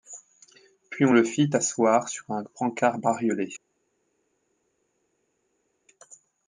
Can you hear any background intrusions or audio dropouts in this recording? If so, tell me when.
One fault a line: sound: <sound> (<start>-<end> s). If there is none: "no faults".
no faults